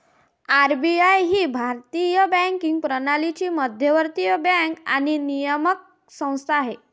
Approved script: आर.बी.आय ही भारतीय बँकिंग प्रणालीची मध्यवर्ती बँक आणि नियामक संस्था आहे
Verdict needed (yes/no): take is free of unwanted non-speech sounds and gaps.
yes